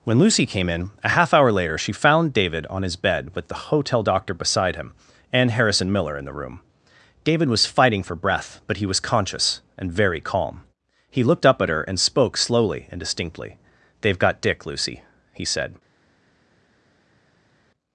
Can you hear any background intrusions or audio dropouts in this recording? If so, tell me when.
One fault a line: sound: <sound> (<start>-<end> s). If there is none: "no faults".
no faults